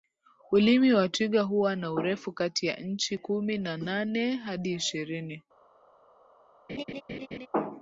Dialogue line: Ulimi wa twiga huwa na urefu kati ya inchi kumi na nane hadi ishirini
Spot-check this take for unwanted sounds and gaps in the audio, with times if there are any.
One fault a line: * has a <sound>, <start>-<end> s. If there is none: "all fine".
* has a laugh, 6.7-7.5 s